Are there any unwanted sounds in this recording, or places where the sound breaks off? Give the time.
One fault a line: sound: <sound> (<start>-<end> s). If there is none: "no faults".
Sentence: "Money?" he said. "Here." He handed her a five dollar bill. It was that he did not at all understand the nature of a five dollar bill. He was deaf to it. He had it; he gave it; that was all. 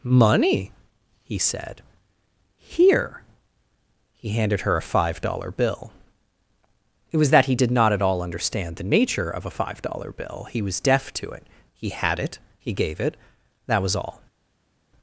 no faults